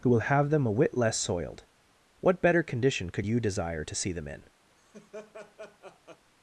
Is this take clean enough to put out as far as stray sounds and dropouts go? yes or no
no